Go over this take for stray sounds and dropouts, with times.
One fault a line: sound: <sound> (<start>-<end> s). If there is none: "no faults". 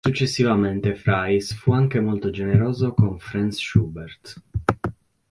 no faults